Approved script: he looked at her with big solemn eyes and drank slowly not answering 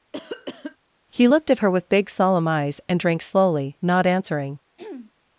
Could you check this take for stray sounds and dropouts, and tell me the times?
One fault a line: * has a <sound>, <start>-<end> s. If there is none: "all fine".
* has a cough, 0.1-0.8 s
* has a throat clearing, 4.8-5.1 s